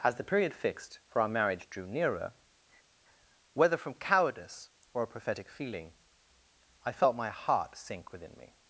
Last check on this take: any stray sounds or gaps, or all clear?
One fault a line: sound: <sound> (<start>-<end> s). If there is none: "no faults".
no faults